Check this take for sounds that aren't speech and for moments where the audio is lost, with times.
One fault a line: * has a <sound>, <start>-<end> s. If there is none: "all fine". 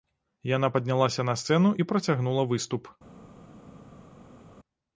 all fine